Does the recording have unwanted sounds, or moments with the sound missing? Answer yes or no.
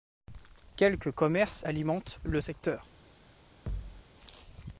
yes